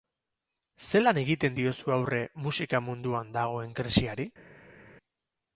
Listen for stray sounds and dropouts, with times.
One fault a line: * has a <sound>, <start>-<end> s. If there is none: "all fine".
all fine